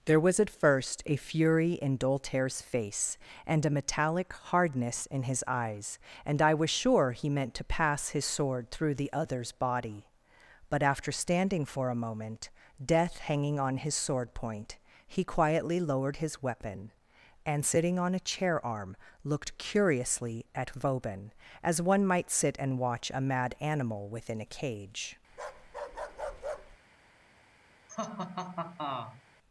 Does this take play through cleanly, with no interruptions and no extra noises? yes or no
no